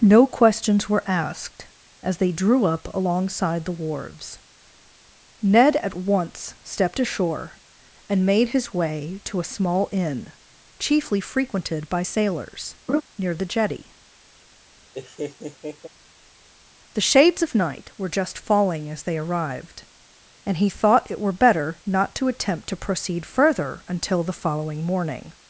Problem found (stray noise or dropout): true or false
true